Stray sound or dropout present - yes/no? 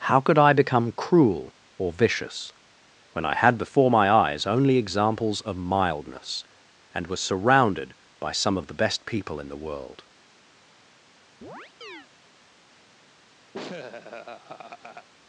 yes